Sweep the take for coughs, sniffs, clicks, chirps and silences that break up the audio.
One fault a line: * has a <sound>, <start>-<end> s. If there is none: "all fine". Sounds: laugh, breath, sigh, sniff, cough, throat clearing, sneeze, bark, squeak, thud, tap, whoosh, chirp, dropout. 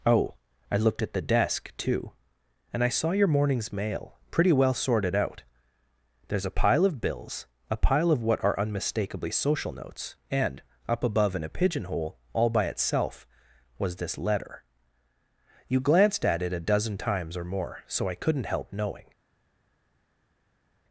all fine